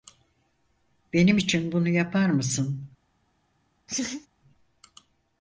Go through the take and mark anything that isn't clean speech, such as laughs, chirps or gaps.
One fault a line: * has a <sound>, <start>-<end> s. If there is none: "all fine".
* has a laugh, 3.9-4.3 s